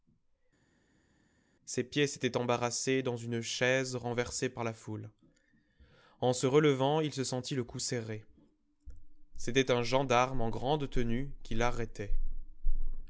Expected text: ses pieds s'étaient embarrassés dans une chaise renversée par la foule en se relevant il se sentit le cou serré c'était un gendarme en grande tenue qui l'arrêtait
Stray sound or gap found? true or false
false